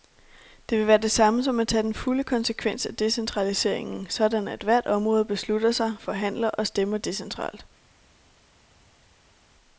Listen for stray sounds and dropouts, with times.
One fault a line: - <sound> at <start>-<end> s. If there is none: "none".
none